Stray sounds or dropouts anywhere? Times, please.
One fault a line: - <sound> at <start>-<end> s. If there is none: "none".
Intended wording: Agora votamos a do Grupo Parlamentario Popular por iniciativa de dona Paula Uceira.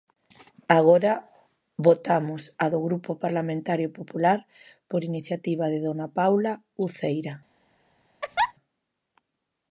- laugh at 8.2-8.5 s